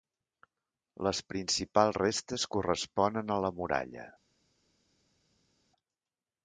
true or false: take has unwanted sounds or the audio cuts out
false